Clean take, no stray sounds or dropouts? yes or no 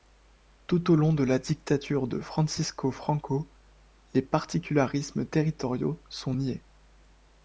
yes